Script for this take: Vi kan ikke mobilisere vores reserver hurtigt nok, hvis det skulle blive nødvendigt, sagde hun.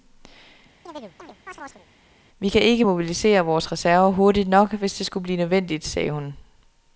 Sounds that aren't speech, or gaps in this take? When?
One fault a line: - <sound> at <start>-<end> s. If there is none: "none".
- chirp at 0.9-1.9 s